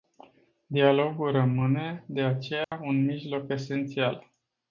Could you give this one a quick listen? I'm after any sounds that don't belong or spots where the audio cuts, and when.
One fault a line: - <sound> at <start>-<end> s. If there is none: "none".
- dropout at 2.6-2.7 s